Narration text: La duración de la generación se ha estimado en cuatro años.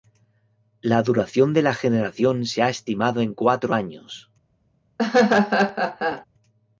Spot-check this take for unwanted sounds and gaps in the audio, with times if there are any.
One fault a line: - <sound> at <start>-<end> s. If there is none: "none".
- laugh at 5.0-6.2 s